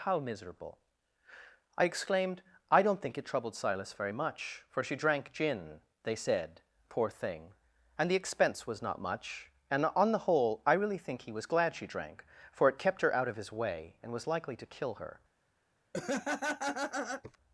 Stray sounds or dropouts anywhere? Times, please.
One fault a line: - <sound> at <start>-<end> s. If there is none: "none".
- laugh at 15.9-17.4 s